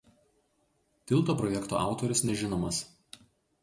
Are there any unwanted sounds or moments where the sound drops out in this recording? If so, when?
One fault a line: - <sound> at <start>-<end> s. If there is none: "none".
none